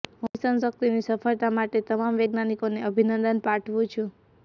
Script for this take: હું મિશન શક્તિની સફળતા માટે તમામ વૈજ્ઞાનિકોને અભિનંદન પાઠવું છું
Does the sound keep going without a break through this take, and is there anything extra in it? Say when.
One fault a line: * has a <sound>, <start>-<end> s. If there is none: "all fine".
all fine